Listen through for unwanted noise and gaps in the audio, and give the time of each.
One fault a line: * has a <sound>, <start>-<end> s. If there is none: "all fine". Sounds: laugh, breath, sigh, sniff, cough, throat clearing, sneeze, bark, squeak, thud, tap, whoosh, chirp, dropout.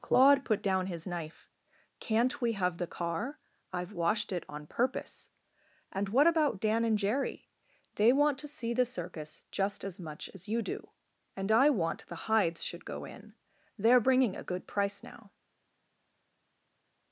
all fine